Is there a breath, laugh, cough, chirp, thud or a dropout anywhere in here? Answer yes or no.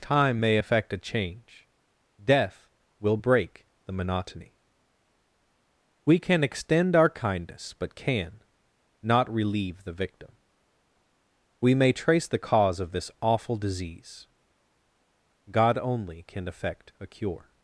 no